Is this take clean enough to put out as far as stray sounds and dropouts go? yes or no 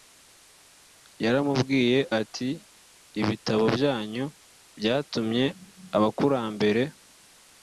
yes